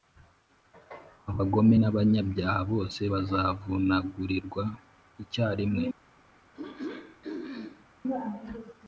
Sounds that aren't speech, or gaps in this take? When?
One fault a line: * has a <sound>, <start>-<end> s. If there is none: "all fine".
* has a throat clearing, 6.5-7.9 s